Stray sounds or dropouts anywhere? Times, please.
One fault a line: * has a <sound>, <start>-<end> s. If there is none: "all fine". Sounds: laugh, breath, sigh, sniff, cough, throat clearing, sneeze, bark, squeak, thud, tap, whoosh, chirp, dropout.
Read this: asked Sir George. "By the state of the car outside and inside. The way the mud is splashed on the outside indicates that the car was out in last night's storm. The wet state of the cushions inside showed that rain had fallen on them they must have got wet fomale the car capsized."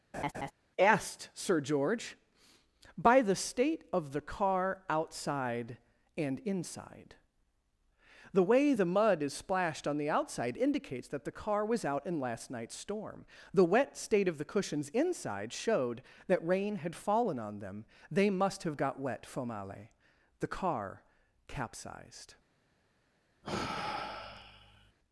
* has a laugh, 0.1-0.5 s
* has a sigh, 23.4-24.9 s